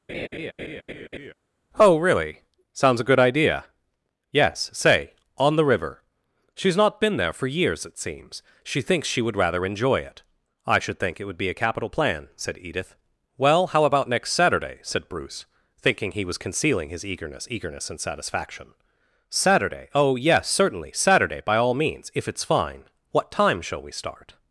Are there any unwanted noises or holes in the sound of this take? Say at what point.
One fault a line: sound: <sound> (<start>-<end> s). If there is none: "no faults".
sound: laugh (0.1-1.3 s)